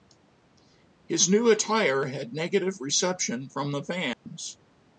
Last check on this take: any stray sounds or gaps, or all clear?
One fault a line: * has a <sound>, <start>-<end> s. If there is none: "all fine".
* has a dropout, 4.1-4.3 s